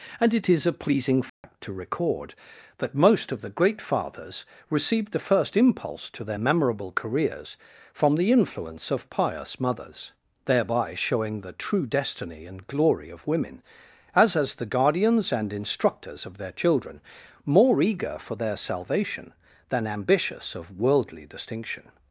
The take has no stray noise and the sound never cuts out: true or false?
false